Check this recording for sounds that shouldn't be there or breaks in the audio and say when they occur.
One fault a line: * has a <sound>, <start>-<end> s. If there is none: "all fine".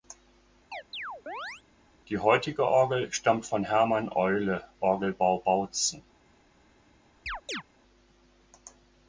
* has a chirp, 0.7-1.6 s
* has a chirp, 7.3-7.6 s